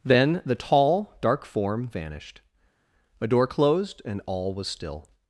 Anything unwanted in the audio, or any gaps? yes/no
no